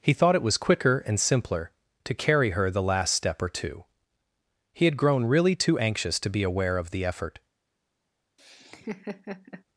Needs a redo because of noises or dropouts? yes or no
yes